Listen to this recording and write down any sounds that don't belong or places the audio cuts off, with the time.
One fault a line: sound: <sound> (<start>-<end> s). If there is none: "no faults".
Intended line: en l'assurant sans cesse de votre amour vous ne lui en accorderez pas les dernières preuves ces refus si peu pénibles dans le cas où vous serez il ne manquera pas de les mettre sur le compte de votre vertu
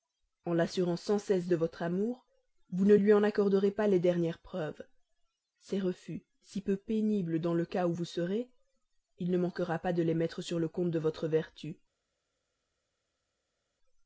no faults